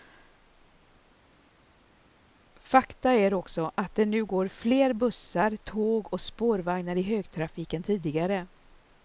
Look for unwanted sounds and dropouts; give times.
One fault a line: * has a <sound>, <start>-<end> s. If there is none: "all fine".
all fine